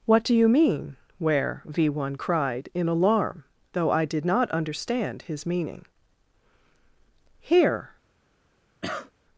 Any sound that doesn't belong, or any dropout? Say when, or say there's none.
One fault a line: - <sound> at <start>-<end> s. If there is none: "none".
- cough at 8.8-9.1 s